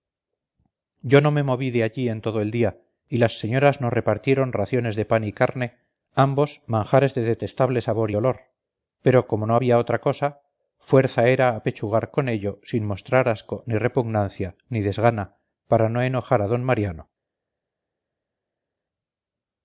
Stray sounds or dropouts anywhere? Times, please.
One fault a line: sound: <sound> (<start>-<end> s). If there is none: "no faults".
no faults